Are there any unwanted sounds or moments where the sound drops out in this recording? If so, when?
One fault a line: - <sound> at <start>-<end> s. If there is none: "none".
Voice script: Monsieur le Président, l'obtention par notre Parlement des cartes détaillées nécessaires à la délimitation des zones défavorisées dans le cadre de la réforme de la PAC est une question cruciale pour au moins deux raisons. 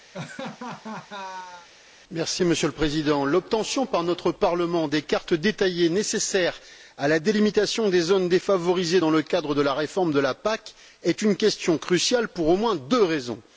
- laugh at 0.1-1.7 s